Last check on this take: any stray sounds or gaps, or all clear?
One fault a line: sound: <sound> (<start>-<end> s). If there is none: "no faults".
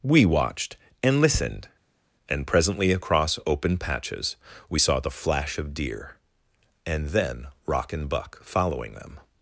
no faults